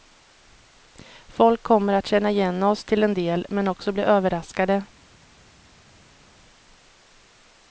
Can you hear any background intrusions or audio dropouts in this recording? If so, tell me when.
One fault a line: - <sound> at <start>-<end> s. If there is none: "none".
none